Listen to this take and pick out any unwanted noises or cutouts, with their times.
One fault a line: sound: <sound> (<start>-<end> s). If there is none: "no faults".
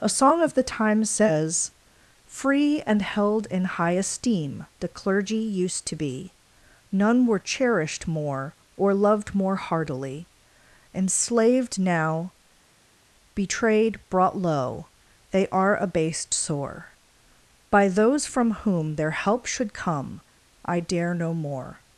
no faults